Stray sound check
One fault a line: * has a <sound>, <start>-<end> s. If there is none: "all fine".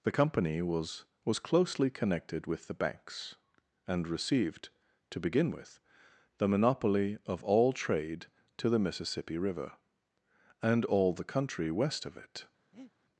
* has a breath, 12.7-12.9 s